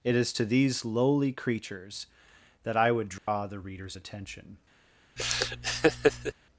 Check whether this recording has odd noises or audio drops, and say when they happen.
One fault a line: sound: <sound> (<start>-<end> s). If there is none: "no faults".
sound: dropout (3.2-3.3 s)
sound: laugh (5.2-6.3 s)